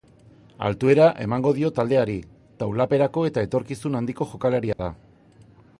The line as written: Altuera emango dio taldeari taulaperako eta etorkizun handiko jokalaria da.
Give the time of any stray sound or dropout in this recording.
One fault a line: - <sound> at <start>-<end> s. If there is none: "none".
- dropout at 4.7-4.8 s